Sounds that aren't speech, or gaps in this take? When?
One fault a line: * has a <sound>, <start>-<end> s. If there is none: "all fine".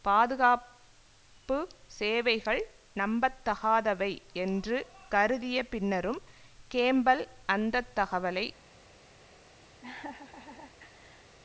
* has a laugh, 9.8-11.4 s